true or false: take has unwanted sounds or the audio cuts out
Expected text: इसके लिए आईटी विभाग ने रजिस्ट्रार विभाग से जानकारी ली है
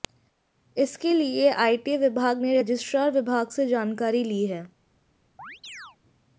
true